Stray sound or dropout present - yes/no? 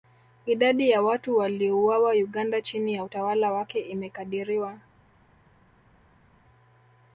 no